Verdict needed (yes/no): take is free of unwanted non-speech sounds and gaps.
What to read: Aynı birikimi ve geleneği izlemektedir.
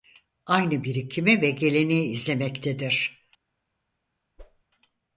no